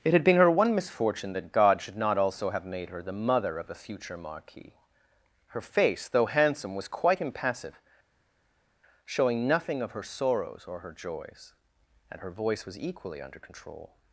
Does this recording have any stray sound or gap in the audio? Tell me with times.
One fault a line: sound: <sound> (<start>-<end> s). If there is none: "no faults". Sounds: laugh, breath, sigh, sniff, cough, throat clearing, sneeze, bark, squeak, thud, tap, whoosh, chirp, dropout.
no faults